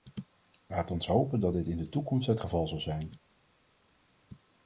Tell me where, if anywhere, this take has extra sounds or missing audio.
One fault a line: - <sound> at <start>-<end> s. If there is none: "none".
none